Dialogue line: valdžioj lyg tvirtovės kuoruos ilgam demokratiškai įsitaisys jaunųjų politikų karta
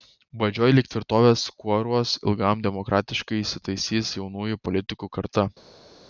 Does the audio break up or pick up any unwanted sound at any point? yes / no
no